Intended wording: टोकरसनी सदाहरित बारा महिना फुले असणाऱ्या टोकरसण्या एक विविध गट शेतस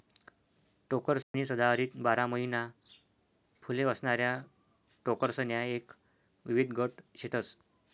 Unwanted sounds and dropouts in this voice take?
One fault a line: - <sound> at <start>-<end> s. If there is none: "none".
- dropout at 1.2-1.3 s